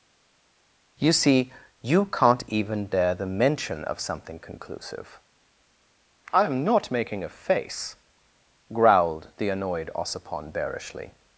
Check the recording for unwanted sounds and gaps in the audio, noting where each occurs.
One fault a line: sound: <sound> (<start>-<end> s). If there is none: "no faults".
no faults